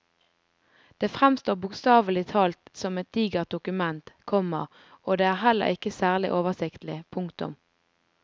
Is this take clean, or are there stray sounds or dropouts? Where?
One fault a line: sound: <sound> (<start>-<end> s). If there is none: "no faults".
no faults